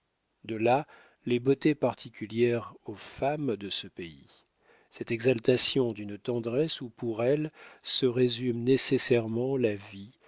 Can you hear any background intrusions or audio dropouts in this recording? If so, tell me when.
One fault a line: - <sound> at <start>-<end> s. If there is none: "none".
none